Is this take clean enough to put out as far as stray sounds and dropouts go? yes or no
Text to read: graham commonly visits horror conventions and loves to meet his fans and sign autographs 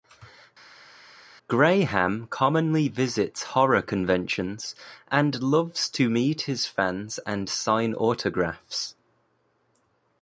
yes